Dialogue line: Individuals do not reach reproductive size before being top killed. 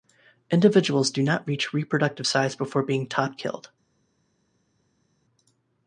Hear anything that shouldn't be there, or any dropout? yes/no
no